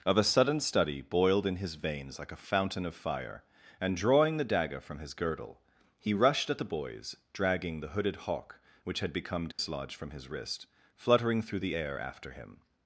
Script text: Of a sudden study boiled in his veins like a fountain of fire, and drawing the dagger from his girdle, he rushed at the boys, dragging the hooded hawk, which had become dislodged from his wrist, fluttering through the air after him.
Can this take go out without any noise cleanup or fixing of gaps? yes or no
no